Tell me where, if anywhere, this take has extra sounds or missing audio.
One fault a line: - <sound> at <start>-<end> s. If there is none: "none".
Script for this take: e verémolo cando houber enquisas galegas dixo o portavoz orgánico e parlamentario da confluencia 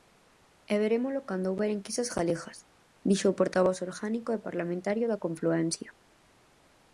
none